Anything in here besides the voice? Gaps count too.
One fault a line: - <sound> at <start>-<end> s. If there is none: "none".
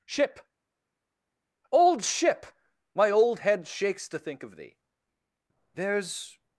none